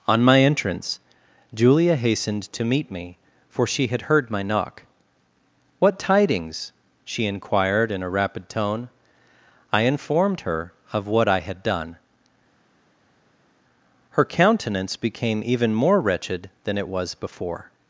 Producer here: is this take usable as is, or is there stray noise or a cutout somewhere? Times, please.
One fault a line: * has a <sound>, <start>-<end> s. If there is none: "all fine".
all fine